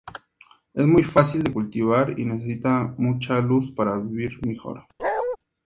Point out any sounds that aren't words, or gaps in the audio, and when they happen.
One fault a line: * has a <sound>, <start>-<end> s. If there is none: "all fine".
* has a bark, 5.0-5.4 s